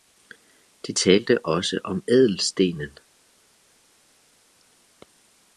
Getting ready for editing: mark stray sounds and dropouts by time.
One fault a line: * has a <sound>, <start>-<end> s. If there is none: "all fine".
all fine